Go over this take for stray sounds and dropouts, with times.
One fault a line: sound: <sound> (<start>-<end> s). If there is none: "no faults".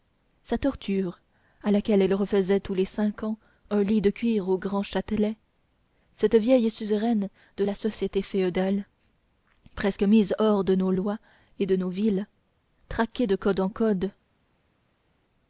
no faults